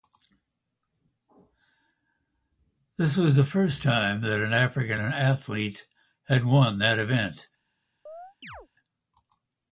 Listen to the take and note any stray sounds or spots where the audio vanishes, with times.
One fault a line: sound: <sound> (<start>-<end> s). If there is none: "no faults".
sound: chirp (8.1-8.7 s)